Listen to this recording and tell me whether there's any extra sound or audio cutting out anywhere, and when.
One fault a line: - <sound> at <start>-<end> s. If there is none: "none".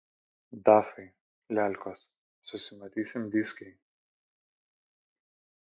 none